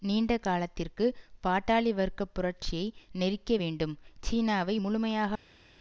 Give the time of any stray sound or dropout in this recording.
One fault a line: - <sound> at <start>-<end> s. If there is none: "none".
none